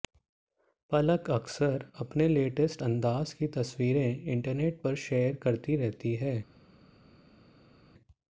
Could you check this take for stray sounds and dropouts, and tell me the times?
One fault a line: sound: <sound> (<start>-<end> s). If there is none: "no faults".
no faults